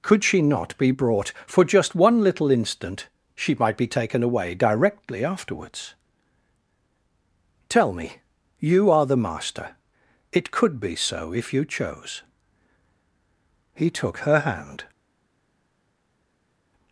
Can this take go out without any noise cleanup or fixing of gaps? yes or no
yes